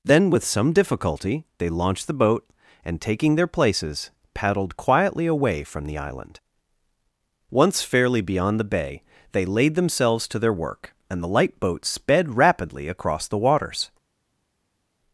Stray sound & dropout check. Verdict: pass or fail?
pass